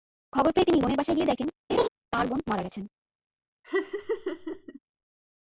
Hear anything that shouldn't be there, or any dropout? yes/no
yes